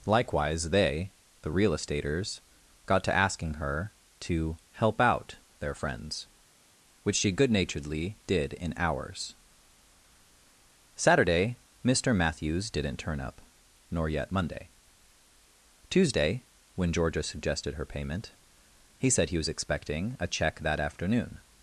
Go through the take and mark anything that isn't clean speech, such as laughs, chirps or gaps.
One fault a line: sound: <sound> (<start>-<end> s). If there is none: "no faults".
no faults